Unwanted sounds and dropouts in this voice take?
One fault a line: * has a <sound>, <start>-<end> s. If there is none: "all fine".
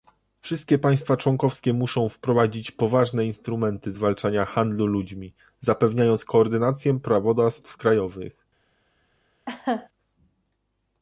* has a laugh, 9.5-9.9 s